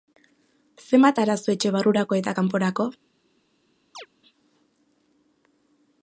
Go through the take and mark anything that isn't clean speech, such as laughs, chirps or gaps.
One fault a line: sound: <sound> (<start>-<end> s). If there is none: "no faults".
sound: chirp (3.9-4.1 s)